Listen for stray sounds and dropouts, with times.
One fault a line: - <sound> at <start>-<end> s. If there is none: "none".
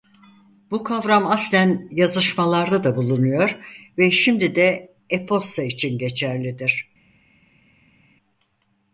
none